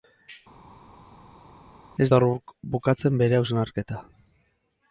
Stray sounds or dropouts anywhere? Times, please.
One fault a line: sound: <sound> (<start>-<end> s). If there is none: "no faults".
no faults